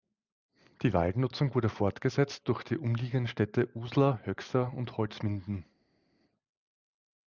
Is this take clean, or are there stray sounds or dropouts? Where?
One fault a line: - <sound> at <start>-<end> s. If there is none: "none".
none